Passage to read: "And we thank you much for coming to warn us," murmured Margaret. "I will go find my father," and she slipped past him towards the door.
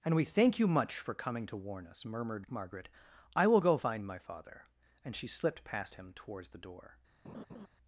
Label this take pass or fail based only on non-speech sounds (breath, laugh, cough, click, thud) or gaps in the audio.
fail